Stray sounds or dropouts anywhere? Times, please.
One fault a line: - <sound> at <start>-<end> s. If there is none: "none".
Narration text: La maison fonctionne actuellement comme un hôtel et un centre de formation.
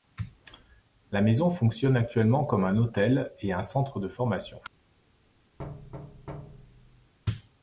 - thud at 5.6-7.1 s